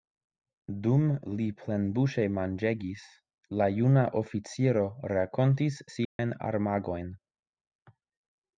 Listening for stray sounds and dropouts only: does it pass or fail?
fail